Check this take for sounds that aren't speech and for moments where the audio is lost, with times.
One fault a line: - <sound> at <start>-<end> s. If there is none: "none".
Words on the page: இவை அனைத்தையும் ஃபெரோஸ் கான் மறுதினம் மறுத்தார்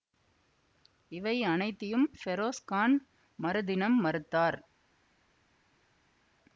none